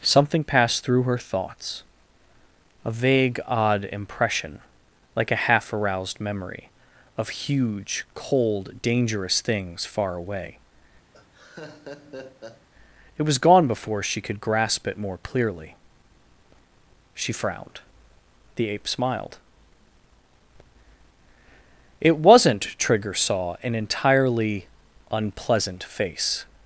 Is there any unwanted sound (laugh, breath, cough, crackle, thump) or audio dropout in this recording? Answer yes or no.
yes